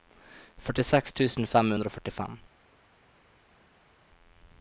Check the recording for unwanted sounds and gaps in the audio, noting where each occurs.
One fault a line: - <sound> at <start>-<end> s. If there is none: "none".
none